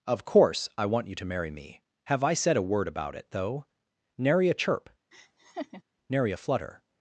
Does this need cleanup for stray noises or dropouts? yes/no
yes